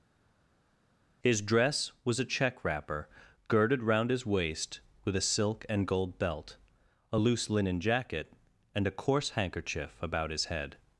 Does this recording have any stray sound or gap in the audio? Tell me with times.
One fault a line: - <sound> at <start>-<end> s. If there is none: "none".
none